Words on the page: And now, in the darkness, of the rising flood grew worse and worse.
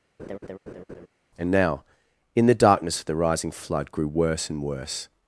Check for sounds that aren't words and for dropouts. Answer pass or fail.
fail